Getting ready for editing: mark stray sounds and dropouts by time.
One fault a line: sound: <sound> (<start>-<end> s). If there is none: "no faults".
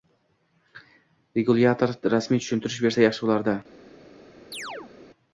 sound: chirp (4.5-4.9 s)